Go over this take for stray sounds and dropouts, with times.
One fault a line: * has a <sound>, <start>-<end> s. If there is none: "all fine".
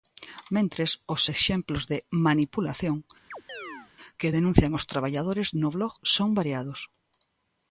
* has a chirp, 3.3-3.9 s